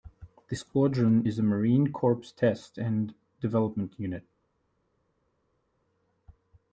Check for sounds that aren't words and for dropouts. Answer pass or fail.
pass